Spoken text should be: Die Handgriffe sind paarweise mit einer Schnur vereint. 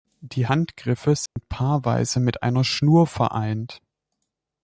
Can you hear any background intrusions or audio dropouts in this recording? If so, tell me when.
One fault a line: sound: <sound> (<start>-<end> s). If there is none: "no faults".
sound: dropout (1.3-1.4 s)